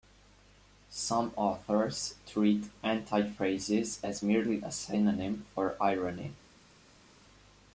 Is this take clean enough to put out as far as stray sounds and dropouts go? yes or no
yes